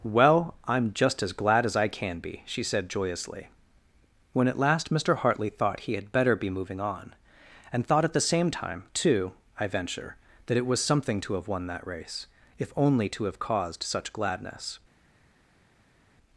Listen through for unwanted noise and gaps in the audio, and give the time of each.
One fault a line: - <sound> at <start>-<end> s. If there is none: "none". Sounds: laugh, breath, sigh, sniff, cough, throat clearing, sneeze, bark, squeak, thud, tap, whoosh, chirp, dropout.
none